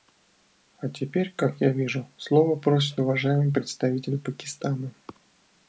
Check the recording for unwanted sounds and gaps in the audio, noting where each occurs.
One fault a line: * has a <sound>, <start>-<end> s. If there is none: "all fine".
all fine